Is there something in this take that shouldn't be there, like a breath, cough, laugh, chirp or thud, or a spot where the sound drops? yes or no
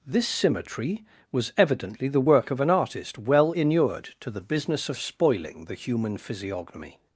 no